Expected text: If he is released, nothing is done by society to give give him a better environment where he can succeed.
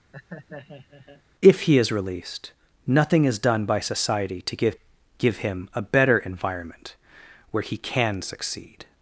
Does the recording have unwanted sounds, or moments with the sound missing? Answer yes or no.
yes